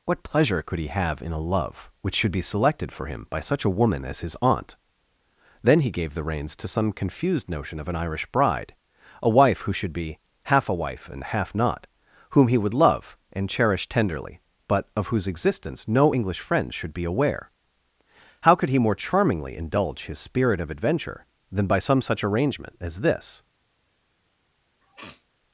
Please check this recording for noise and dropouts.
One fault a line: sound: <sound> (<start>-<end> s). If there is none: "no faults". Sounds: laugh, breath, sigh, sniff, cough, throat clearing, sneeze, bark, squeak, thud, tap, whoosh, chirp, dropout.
sound: sniff (24.8-25.2 s)